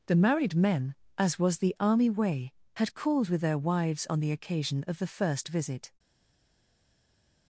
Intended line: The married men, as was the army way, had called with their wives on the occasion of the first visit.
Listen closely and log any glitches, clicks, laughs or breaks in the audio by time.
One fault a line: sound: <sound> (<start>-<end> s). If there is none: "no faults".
no faults